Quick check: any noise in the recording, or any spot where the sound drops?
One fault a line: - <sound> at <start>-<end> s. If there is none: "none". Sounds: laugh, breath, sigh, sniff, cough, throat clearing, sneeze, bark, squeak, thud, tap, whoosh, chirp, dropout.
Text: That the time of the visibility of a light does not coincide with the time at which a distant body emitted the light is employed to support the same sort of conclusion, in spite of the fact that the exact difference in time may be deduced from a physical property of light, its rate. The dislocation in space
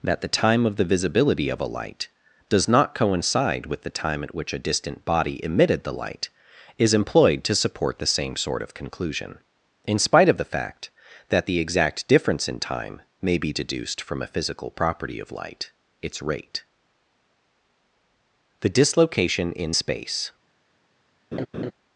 - laugh at 21.3-21.7 s